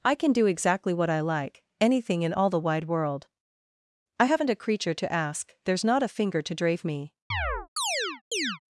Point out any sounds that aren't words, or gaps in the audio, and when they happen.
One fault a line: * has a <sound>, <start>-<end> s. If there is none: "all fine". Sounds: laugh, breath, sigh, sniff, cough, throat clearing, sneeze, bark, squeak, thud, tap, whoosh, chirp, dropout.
* has a chirp, 7.3-8.6 s